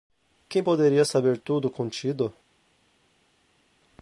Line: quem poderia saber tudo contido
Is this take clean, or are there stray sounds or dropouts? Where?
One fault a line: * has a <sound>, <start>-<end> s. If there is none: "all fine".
all fine